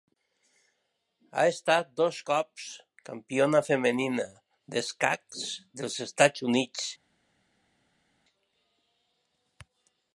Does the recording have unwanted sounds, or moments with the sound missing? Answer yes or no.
no